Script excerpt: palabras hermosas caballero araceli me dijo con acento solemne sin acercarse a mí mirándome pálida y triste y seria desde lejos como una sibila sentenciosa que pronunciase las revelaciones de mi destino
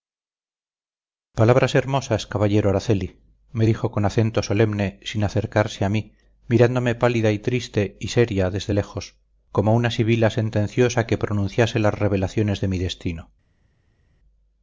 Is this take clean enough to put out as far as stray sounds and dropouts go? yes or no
yes